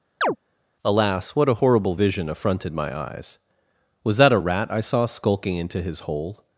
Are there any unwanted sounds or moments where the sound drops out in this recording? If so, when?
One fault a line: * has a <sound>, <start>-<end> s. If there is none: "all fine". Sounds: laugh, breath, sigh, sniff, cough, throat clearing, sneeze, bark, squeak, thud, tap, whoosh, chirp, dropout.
* has a chirp, 0.2-0.4 s